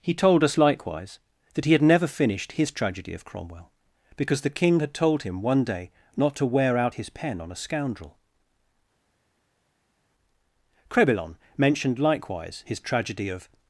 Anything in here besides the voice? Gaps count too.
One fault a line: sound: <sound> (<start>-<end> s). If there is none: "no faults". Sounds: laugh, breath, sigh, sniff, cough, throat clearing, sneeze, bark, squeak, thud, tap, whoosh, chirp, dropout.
no faults